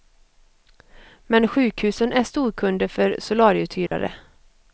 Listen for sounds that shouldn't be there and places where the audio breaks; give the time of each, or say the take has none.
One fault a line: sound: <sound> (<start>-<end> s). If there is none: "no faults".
sound: dropout (3.9-3.9 s)